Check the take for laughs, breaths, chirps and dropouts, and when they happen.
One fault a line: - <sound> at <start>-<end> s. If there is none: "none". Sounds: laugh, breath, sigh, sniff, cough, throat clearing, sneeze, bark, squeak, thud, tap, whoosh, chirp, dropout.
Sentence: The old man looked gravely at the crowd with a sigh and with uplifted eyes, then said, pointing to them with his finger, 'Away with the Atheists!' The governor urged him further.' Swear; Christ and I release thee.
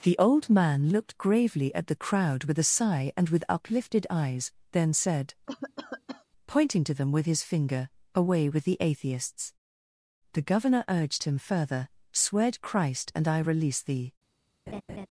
- cough at 5.5-6.3 s
- laugh at 14.7-15.1 s